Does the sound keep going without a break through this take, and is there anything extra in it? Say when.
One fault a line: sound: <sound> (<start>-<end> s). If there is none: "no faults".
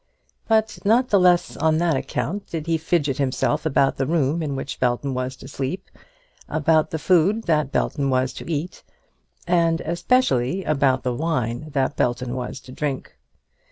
no faults